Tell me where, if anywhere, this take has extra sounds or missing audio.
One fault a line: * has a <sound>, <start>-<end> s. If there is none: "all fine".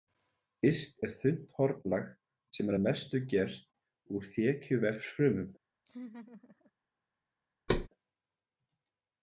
* has a laugh, 5.9-6.7 s
* has a thud, 7.7-7.9 s